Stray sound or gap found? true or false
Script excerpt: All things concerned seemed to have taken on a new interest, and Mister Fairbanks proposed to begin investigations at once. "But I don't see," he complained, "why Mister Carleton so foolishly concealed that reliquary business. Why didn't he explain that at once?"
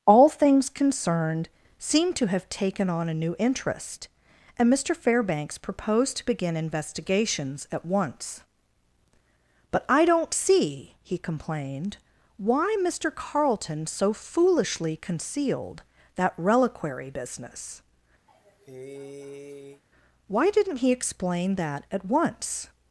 true